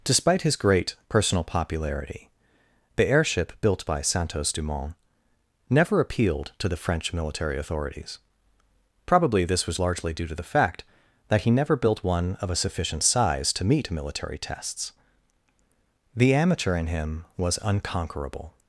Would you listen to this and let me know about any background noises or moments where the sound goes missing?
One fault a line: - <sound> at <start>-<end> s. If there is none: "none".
none